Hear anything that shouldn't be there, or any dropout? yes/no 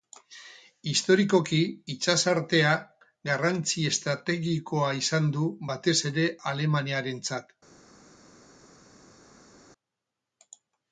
no